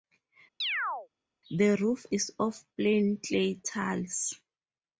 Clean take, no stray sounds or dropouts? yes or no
no